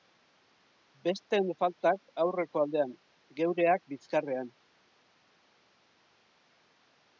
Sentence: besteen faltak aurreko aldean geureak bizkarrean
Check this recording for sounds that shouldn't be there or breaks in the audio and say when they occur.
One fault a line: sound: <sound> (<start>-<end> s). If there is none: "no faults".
no faults